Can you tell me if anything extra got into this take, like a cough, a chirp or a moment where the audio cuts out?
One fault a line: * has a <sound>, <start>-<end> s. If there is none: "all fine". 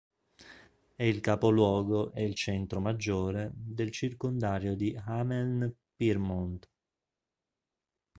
all fine